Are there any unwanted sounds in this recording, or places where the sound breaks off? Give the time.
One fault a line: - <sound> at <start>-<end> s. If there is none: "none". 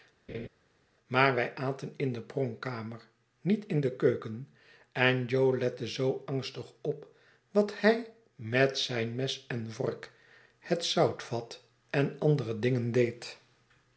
- laugh at 0.3-0.5 s